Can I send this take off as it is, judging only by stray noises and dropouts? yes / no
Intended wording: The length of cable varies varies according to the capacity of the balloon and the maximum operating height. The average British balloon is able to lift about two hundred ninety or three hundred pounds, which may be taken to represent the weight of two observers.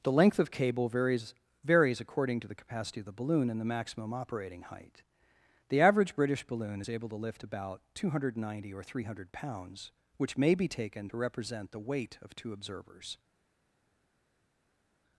yes